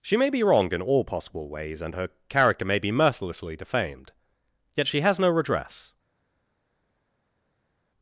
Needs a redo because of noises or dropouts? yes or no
no